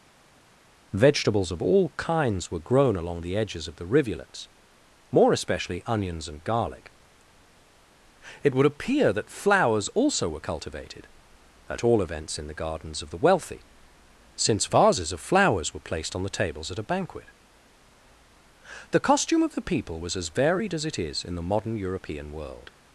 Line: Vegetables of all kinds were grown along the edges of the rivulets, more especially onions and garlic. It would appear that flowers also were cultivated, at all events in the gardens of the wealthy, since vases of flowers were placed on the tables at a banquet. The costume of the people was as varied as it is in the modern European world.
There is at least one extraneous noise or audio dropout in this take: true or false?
false